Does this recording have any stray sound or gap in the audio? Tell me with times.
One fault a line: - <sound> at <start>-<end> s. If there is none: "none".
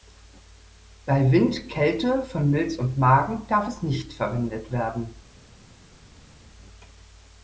none